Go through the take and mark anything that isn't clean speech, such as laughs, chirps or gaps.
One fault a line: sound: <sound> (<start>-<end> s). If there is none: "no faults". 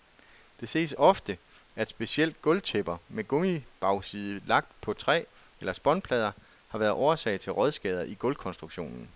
no faults